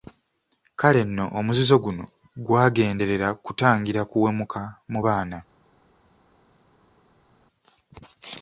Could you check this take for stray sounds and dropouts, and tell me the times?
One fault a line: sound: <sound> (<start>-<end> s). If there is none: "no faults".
no faults